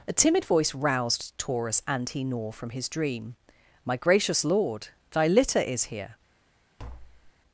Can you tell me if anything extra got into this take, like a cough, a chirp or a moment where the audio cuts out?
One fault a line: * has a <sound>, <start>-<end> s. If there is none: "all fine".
* has a tap, 6.8-7.3 s